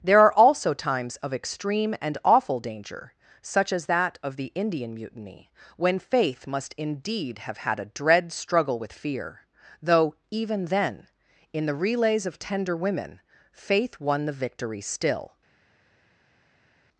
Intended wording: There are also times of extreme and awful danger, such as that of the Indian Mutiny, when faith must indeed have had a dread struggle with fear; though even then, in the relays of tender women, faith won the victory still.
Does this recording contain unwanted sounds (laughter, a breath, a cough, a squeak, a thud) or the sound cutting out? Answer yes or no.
no